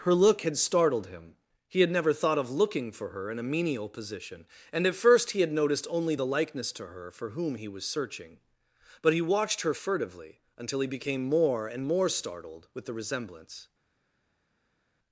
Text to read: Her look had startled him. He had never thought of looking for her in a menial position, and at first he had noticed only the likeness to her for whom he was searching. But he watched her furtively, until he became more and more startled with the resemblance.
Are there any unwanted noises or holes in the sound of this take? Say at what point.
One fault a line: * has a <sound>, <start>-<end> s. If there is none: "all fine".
all fine